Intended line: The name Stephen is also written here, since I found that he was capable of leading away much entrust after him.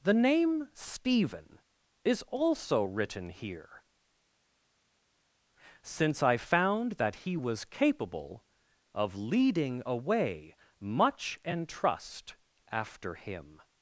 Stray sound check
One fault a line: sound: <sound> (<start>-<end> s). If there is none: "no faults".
no faults